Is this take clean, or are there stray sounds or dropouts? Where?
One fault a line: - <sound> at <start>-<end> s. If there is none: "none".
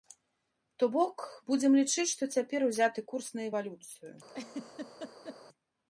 - laugh at 4.3-5.4 s